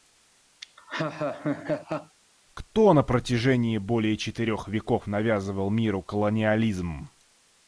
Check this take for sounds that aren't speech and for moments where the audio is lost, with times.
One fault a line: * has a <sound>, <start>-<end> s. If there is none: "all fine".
* has a laugh, 0.6-2.2 s